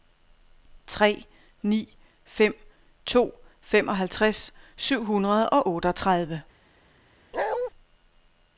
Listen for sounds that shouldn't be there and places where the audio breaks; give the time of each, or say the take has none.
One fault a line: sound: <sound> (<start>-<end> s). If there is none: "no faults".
sound: bark (7.3-7.7 s)